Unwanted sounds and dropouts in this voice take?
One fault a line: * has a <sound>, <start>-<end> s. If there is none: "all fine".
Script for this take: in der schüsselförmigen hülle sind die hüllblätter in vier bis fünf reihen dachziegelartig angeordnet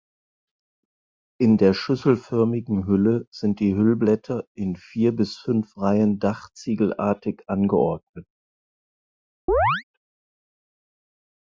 * has a chirp, 9.5-9.8 s